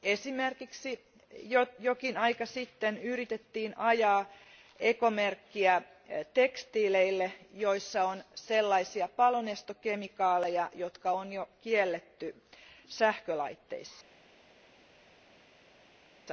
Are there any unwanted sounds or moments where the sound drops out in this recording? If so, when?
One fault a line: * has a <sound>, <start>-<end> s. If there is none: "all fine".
all fine